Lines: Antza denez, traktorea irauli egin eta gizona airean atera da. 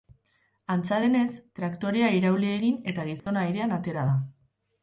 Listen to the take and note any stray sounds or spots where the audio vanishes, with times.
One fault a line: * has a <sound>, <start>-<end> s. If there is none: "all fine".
* has a dropout, 3.2-3.3 s